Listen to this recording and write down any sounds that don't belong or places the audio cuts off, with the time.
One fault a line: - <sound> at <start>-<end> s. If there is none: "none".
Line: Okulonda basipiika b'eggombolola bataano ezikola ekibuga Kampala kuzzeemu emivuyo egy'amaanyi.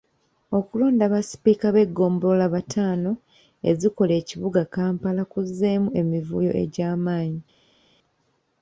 none